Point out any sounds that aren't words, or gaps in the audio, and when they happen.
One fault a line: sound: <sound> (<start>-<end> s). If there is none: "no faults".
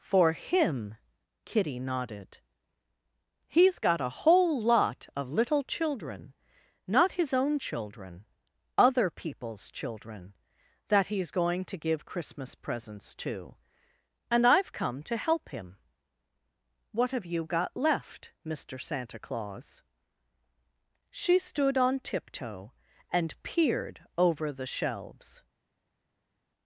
no faults